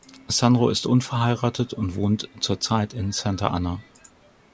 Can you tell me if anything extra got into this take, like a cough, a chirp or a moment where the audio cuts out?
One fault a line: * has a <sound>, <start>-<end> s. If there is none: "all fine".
all fine